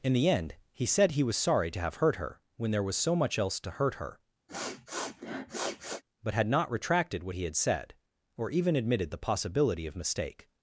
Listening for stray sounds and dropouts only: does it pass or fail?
fail